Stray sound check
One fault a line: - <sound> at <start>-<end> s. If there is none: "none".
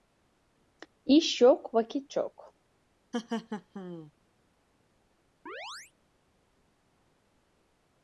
- laugh at 3.1-4.1 s
- chirp at 5.5-5.9 s